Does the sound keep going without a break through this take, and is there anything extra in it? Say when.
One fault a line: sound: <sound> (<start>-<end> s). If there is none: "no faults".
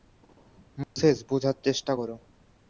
sound: dropout (0.8-1.0 s)